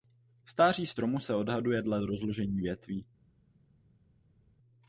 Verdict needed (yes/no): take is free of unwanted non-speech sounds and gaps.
yes